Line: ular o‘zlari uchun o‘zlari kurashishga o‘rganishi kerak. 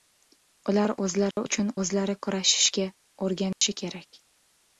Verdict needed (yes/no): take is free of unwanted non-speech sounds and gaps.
no